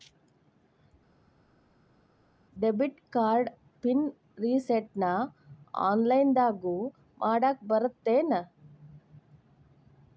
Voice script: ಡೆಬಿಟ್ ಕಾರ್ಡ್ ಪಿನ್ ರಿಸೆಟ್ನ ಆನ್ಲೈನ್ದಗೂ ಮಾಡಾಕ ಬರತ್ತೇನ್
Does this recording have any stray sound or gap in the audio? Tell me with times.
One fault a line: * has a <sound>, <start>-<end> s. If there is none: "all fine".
all fine